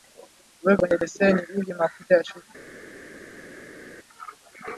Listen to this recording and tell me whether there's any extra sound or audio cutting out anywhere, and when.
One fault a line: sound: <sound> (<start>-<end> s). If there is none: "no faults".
no faults